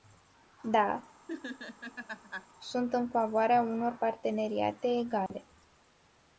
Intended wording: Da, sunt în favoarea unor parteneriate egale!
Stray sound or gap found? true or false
true